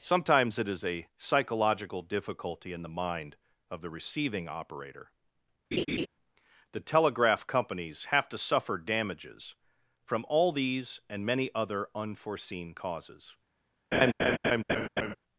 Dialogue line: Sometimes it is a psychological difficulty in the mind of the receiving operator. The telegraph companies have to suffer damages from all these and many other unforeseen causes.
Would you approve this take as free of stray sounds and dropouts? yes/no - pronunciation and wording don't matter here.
no